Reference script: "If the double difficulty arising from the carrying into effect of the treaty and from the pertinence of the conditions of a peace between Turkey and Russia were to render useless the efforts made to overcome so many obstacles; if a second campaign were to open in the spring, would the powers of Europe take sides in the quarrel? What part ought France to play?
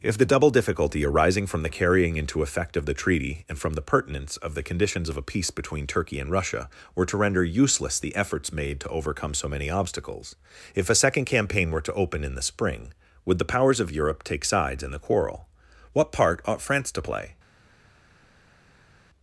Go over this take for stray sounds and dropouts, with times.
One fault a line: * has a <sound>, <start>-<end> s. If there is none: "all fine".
all fine